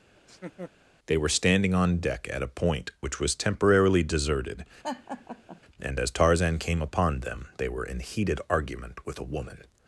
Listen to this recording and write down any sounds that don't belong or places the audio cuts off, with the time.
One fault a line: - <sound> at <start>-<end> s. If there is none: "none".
- laugh at 0.2-0.7 s
- laugh at 4.8-5.6 s